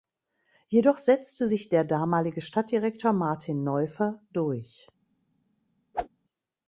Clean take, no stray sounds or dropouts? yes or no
no